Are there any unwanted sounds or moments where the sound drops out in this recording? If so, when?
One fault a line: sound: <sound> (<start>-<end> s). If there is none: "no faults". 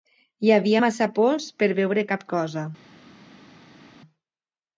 no faults